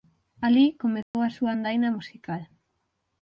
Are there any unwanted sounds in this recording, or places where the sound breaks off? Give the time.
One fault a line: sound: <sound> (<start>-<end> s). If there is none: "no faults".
sound: dropout (1.0-1.1 s)